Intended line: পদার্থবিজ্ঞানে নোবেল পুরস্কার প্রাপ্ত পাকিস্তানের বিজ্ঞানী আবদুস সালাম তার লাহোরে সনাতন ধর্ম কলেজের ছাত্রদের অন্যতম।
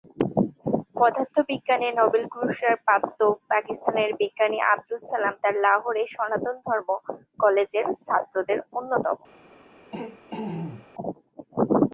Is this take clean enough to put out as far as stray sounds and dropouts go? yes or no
no